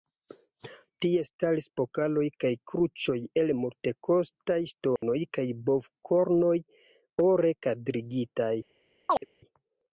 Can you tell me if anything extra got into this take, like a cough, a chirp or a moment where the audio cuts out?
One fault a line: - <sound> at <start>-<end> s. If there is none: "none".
- dropout at 5.0-5.0 s
- chirp at 9.1-9.3 s